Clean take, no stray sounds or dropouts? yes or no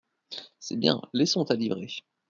yes